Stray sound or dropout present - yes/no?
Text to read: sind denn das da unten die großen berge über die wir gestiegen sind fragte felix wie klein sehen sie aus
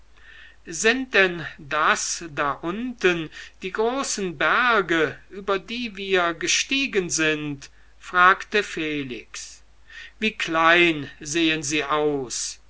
no